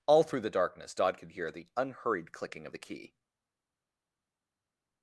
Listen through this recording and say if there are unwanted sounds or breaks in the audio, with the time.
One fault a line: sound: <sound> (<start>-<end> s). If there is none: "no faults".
no faults